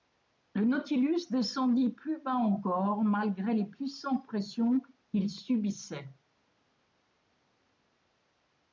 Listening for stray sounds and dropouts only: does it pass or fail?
pass